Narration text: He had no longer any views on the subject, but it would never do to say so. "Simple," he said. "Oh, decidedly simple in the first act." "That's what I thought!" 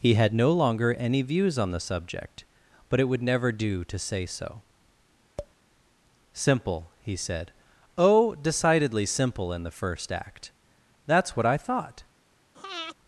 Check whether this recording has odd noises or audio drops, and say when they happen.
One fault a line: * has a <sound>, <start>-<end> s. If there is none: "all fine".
* has a tap, 5.4-5.5 s
* has a breath, 12.5-13.0 s